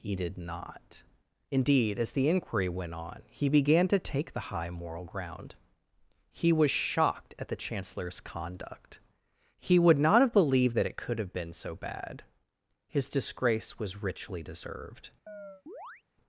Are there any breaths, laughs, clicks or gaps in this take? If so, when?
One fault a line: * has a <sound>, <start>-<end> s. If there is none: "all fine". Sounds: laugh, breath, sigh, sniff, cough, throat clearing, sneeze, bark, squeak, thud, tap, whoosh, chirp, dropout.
* has a chirp, 15.3-16.0 s